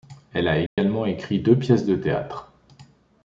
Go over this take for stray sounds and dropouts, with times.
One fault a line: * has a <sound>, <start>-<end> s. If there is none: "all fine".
* has a dropout, 0.7-0.8 s